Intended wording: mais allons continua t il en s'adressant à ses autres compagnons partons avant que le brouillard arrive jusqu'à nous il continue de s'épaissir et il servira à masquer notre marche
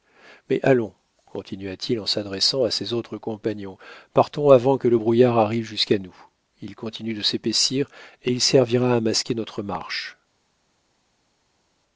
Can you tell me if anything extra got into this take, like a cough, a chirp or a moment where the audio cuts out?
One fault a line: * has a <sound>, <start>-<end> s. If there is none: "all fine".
all fine